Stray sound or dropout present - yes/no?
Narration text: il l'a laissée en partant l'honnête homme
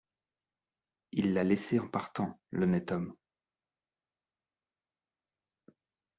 no